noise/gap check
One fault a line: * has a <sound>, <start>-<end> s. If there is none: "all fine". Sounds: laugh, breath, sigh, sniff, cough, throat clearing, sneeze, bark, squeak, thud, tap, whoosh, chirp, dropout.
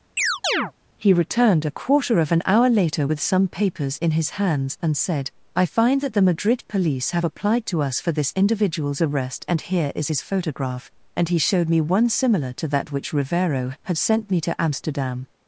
* has a chirp, 0.2-0.7 s